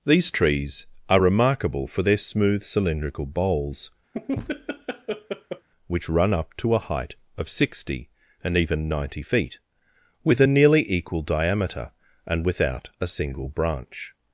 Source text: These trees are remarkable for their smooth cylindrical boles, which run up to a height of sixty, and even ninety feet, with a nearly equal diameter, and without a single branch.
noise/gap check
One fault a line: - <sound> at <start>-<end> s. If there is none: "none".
- laugh at 4.1-5.7 s